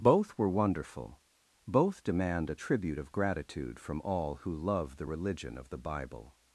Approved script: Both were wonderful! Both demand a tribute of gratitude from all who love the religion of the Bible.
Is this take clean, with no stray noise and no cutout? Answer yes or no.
yes